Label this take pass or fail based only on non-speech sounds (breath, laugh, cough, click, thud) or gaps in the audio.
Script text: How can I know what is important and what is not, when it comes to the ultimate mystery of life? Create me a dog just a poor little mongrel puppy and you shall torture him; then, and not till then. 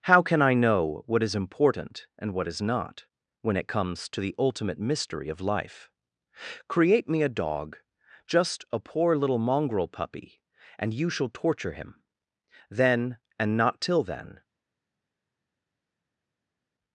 pass